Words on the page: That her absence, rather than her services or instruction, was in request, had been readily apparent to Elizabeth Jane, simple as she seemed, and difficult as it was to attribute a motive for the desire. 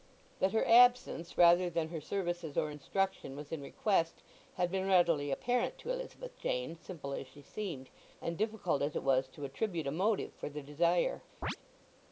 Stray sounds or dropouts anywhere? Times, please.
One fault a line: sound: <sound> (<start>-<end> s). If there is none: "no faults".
sound: chirp (11.4-11.6 s)